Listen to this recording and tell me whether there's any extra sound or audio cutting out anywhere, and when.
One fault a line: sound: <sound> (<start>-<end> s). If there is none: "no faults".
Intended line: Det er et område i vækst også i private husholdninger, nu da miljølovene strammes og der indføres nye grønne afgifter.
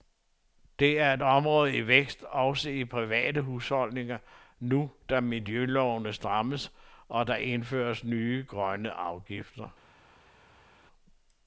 no faults